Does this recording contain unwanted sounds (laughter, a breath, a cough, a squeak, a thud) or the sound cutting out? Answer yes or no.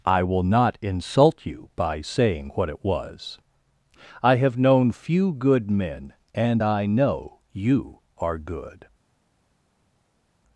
no